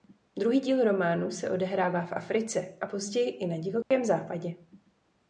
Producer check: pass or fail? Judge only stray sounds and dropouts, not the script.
fail